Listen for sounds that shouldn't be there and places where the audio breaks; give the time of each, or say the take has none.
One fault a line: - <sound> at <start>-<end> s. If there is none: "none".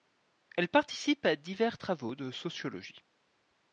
none